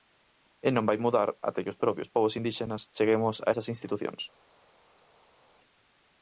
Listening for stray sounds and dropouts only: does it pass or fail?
pass